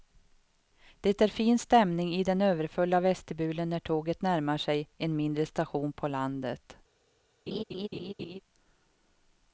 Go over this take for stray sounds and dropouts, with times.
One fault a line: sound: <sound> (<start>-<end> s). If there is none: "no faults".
sound: laugh (7.5-8.4 s)